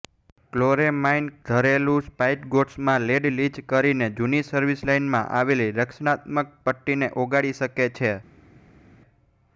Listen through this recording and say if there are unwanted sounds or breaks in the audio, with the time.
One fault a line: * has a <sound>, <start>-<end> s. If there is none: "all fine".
all fine